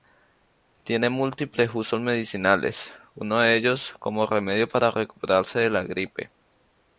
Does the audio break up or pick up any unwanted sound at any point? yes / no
no